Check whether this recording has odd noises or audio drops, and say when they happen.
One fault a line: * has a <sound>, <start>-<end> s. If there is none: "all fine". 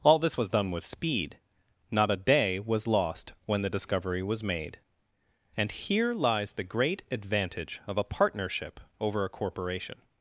all fine